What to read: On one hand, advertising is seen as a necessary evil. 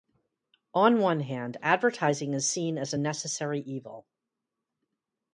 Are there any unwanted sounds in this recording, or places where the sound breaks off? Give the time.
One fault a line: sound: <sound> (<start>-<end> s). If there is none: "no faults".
no faults